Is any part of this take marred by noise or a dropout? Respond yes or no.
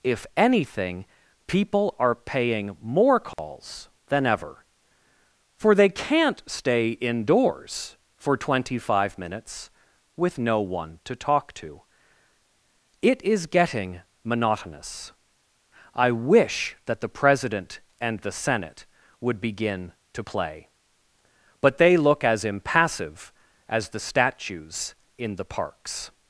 yes